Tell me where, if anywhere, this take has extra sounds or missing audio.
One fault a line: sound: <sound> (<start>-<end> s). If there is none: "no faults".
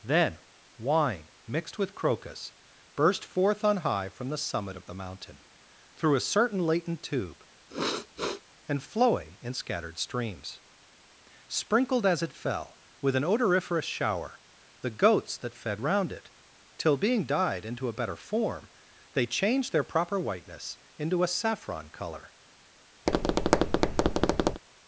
sound: sniff (7.7-8.4 s)
sound: tap (23.1-24.6 s)